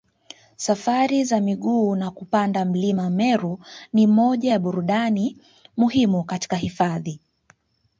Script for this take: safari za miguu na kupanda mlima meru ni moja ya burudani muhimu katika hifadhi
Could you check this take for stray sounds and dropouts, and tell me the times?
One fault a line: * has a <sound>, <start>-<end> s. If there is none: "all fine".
all fine